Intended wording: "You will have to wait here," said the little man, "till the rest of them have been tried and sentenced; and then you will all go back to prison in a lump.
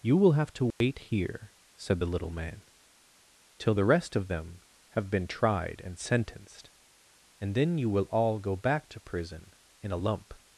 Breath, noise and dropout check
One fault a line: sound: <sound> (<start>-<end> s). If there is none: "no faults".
sound: dropout (0.7-0.8 s)